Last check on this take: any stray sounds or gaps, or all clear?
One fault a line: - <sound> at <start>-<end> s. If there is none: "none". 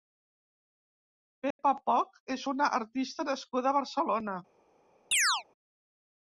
- dropout at 1.5-1.6 s
- chirp at 5.1-5.4 s